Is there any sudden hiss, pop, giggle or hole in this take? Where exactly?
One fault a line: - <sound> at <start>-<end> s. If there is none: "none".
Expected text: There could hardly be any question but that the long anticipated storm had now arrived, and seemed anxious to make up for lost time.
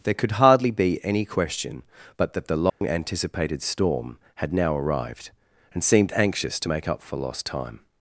- dropout at 2.7-2.8 s